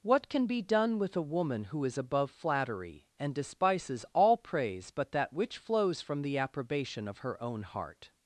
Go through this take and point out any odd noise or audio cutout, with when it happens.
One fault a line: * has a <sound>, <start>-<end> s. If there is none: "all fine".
all fine